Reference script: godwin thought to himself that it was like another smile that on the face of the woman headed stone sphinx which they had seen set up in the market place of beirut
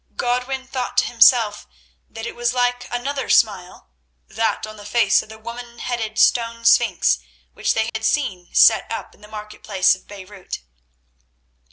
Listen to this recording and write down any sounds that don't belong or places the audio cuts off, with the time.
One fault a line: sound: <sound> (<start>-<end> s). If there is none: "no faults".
sound: dropout (7.9-7.9 s)